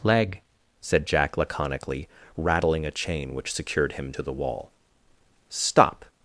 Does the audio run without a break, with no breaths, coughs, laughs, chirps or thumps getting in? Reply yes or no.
yes